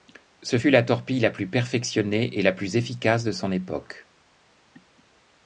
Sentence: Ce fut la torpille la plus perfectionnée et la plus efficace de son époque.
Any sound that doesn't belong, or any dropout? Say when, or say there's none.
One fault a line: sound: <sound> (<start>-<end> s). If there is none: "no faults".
no faults